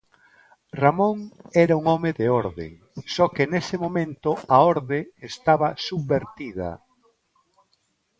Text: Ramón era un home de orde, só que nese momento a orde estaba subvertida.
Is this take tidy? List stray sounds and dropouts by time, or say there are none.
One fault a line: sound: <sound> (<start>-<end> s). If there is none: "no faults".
no faults